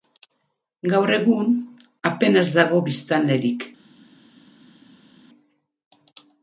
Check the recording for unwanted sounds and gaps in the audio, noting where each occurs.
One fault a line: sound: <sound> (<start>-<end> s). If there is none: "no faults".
no faults